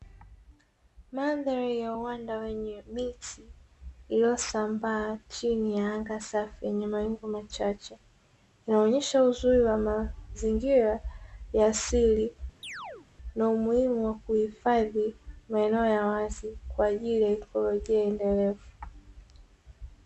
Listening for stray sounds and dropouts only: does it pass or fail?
fail